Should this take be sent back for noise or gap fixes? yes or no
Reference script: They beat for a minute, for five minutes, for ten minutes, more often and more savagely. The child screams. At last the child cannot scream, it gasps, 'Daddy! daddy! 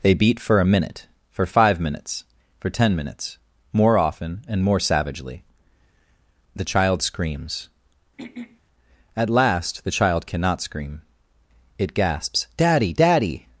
yes